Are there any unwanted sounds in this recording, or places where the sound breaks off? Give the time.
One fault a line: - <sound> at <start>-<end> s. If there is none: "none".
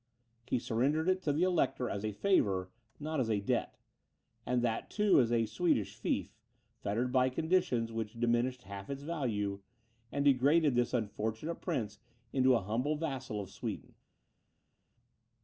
none